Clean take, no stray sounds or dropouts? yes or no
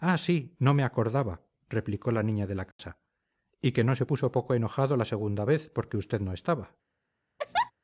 no